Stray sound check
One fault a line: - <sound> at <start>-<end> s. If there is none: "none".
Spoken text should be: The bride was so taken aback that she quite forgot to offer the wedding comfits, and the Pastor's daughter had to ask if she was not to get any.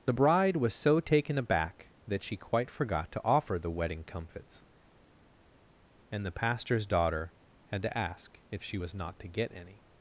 none